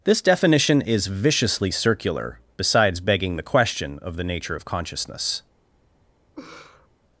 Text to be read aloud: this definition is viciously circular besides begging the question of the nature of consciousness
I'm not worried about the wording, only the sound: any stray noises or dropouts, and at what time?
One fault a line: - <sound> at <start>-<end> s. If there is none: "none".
- laugh at 6.4-6.9 s